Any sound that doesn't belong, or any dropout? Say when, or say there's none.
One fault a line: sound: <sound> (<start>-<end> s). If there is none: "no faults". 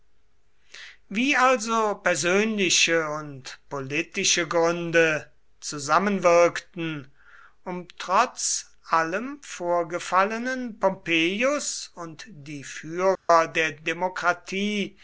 sound: dropout (13.2-13.3 s)